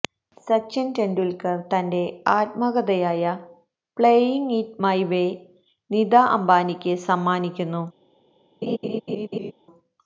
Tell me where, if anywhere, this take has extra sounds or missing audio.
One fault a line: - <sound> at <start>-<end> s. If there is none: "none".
- laugh at 8.6-9.5 s